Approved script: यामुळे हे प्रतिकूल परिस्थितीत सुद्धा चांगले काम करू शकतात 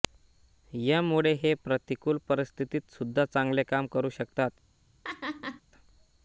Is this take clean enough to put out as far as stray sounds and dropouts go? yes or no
no